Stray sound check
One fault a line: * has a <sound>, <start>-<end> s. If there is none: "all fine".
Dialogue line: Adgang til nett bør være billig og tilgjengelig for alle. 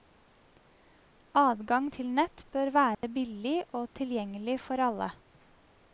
* has a dropout, 2.9-3.0 s